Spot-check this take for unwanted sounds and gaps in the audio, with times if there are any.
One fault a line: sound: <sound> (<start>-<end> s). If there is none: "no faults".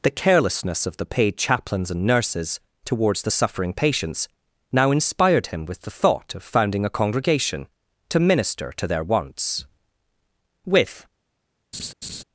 sound: laugh (11.7-12.2 s)